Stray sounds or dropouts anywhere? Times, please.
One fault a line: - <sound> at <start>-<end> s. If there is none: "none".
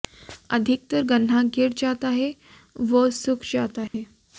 - dropout at 3.9-3.9 s